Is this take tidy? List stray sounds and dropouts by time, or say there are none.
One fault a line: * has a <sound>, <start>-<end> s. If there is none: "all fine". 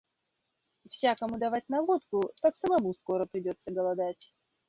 all fine